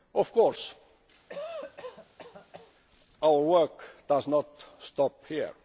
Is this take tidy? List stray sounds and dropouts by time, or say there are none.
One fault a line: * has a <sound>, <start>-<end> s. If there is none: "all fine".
* has a cough, 1.3-2.7 s